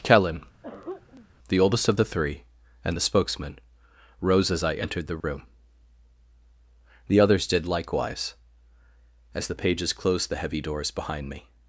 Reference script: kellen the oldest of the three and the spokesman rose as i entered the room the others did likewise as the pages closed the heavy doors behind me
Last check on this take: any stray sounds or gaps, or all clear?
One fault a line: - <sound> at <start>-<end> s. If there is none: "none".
- throat clearing at 0.6-1.3 s
- dropout at 5.2-5.2 s